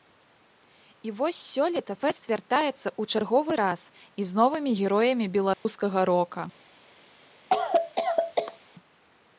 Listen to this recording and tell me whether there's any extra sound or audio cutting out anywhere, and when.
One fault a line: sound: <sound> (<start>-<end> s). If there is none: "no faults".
sound: dropout (5.5-5.7 s)
sound: cough (7.5-8.6 s)